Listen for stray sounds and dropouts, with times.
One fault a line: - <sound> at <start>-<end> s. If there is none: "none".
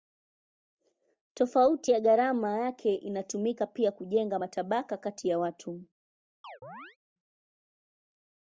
- chirp at 6.4-7.0 s